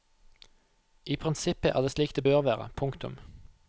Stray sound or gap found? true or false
false